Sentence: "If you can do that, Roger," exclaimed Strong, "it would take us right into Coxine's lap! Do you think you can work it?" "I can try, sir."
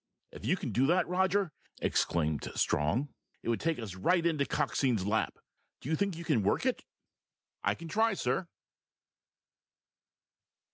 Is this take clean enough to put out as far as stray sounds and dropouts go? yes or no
yes